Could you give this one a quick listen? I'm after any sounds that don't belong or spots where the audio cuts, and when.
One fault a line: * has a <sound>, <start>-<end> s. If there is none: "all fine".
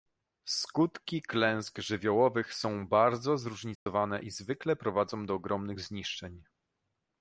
* has a dropout, 3.8-3.9 s